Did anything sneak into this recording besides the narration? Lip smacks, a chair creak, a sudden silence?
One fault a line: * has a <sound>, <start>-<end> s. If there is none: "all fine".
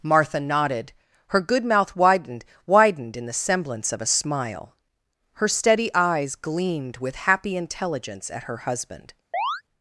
* has a chirp, 9.3-9.6 s